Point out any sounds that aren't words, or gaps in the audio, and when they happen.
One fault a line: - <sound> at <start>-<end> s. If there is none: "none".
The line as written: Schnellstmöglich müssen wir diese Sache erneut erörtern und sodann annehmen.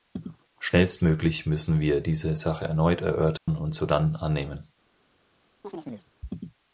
- dropout at 3.4-3.5 s
- chirp at 5.6-6.1 s